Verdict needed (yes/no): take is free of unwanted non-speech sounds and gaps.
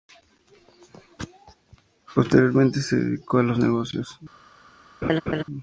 no